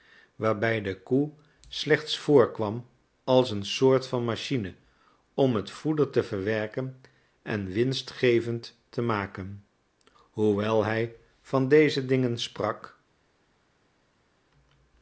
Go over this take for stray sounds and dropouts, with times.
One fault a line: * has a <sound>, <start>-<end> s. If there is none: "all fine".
all fine